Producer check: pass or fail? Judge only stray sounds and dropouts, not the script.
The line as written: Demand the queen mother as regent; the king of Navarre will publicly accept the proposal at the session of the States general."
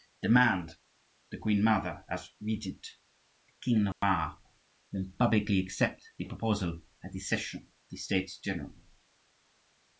fail